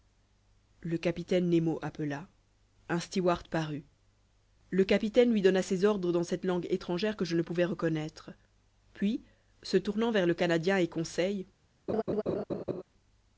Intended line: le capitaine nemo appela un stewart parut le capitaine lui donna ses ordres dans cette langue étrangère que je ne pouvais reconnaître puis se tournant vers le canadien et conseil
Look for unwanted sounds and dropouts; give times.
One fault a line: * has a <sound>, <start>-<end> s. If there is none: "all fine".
* has a laugh, 11.9-12.8 s